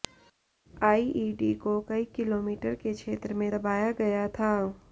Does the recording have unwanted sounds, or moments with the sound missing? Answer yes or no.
no